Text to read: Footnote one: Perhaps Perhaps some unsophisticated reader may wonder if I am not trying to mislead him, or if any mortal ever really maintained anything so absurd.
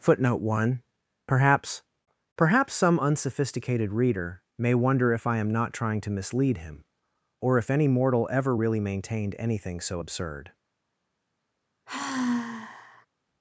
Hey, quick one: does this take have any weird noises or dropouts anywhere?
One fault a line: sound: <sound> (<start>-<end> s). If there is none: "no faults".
sound: sigh (11.9-13.1 s)